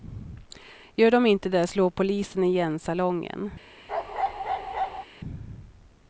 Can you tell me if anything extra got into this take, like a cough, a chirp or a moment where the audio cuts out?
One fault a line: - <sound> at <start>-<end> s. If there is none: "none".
- bark at 3.9-5.0 s